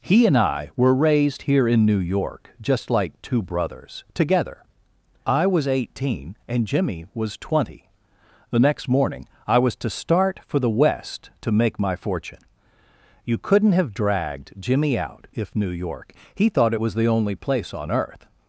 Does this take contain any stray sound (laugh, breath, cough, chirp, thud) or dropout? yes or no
no